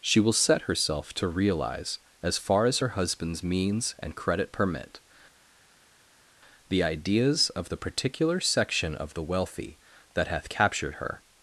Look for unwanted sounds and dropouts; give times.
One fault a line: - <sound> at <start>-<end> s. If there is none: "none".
none